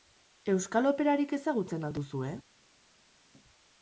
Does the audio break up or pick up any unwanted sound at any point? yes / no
no